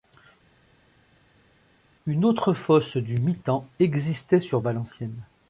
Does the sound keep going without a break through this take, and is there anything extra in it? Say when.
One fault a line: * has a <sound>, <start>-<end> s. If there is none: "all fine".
all fine